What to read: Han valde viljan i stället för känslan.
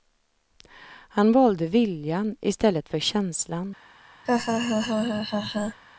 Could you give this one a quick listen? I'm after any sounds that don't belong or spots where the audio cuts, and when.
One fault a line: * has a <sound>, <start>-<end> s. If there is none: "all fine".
* has a laugh, 4.3-5.8 s